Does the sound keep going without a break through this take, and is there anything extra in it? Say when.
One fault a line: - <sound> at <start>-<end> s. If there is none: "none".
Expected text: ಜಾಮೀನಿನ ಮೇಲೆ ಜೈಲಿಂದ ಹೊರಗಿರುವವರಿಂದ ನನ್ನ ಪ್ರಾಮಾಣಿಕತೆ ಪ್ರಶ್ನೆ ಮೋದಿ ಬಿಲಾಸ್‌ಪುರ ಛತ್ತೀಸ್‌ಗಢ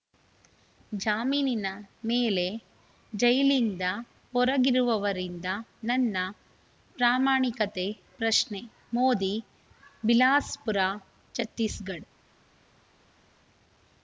none